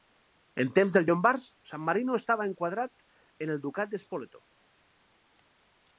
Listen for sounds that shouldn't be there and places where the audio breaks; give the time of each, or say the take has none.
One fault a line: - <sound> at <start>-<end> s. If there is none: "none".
none